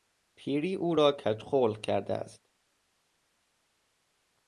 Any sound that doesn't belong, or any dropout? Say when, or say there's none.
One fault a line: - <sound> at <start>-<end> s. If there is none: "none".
none